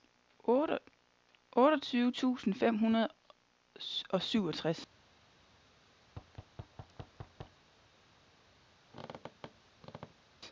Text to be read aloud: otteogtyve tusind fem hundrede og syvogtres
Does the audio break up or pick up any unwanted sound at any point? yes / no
yes